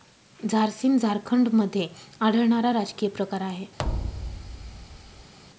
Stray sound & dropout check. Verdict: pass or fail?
fail